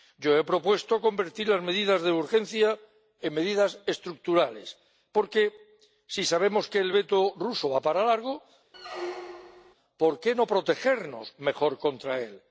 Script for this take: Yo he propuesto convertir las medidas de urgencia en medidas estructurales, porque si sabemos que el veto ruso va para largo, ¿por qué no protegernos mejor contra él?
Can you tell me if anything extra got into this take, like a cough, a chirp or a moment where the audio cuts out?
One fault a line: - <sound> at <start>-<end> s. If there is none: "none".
- squeak at 8.7-9.7 s